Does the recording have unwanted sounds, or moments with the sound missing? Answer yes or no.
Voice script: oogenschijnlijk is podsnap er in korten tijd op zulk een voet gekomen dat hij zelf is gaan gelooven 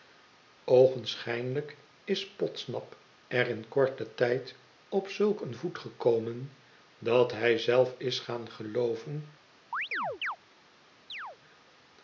yes